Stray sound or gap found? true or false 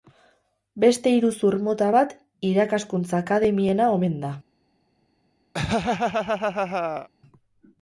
true